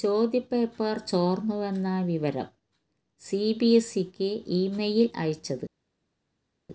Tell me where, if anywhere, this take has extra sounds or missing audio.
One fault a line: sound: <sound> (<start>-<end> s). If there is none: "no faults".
no faults